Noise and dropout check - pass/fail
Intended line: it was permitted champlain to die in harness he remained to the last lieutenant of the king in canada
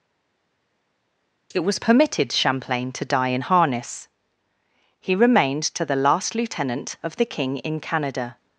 pass